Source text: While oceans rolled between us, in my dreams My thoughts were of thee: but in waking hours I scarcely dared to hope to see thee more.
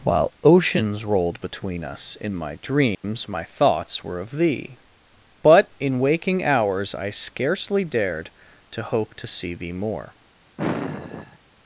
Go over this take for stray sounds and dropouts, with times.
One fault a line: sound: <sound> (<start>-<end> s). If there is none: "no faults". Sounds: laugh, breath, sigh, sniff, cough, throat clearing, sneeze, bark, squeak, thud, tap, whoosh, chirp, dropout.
sound: dropout (2.9-3.0 s)
sound: sigh (10.6-11.4 s)